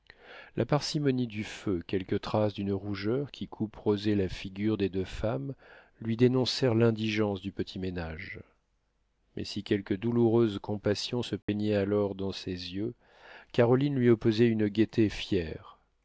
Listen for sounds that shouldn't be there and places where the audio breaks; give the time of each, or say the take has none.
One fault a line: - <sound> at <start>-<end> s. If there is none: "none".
- dropout at 11.4-11.5 s